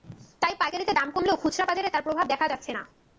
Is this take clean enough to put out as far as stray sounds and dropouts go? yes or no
yes